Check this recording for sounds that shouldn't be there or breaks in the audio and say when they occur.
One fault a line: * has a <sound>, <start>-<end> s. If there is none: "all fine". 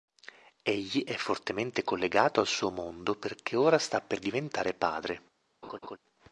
* has a laugh, 5.6-6.0 s